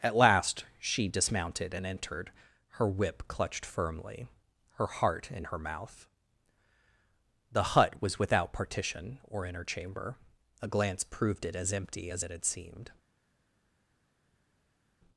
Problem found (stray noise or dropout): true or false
false